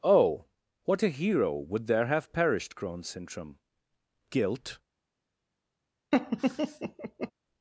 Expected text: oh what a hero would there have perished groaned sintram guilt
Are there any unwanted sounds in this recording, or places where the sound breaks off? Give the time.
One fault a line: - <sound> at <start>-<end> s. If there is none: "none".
- laugh at 6.1-7.3 s